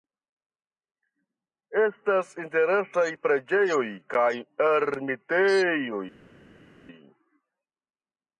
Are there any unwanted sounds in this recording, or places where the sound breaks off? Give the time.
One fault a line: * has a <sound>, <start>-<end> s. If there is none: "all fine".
all fine